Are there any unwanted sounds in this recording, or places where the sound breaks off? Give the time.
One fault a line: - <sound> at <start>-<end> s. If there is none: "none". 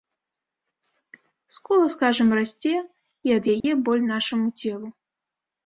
- dropout at 3.6-3.6 s